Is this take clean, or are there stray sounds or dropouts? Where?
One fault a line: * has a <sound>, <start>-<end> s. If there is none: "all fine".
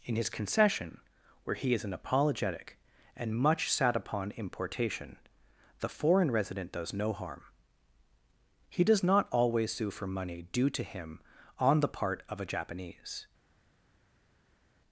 all fine